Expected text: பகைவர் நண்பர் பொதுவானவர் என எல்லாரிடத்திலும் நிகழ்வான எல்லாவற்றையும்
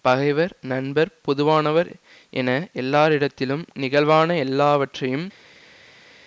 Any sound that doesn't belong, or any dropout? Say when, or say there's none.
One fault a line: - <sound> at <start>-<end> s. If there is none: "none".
none